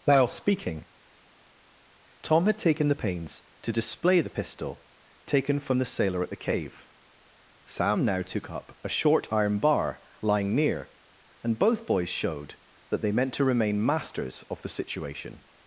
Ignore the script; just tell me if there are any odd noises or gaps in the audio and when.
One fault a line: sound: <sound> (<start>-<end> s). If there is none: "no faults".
no faults